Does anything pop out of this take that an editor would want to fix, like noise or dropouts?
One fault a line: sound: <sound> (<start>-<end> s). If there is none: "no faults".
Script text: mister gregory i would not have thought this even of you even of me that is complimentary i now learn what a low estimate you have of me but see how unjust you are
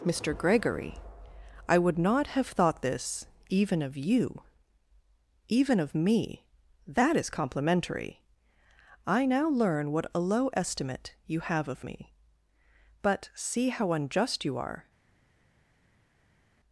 no faults